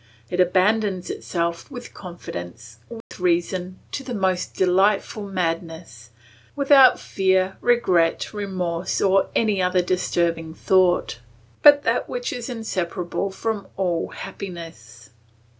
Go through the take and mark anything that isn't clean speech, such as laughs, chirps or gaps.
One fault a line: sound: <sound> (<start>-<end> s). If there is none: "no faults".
sound: dropout (3.0-3.1 s)